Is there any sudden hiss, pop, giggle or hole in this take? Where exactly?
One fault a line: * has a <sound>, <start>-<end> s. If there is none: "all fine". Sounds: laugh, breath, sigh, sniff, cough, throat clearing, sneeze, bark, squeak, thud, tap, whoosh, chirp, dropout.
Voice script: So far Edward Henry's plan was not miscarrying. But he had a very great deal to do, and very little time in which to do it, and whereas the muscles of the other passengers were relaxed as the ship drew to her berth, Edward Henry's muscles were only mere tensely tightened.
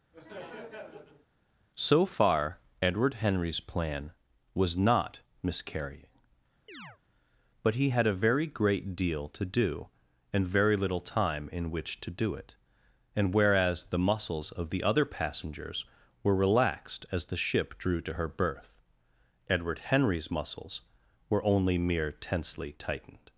* has a laugh, 0.1-1.3 s
* has a chirp, 6.7-7.0 s